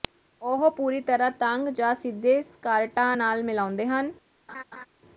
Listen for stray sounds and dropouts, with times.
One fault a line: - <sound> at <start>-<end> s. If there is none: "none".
- laugh at 4.5-4.9 s